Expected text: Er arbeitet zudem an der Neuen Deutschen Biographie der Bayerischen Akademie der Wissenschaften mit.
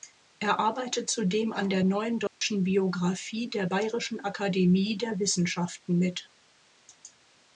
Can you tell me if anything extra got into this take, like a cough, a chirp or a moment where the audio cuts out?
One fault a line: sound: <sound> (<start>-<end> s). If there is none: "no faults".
sound: dropout (2.3-2.4 s)